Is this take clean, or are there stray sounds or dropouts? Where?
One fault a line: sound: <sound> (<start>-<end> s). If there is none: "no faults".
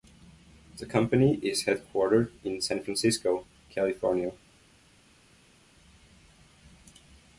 no faults